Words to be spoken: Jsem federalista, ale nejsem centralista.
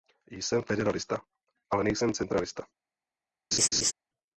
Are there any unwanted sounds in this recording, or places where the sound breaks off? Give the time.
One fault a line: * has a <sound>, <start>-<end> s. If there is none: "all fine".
* has a laugh, 3.5-3.9 s